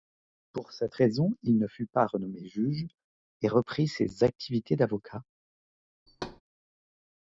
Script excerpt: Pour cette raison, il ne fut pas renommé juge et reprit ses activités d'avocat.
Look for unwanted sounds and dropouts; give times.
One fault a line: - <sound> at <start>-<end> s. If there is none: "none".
- thud at 6.1-6.4 s